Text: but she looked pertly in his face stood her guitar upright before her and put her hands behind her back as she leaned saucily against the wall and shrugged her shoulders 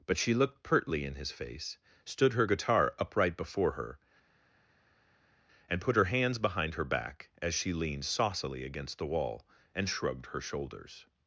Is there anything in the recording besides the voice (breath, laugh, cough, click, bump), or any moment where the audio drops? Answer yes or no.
no